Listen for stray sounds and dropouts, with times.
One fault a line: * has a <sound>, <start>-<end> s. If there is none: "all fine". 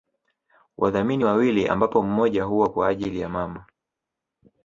all fine